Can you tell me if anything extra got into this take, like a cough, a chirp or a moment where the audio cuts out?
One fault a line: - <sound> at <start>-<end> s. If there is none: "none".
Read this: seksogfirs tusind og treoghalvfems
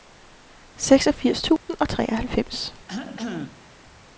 - dropout at 1.6-1.7 s
- cough at 2.9-3.7 s